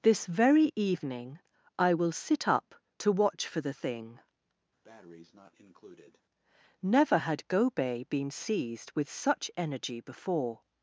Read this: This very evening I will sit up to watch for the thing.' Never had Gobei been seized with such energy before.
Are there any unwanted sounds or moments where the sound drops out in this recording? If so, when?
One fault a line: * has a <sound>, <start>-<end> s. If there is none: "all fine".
* has a breath, 4.8-6.2 s